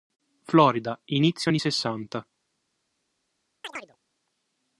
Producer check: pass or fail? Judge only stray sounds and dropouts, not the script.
fail